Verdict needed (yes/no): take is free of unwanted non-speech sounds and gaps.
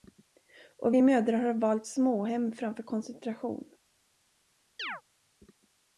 no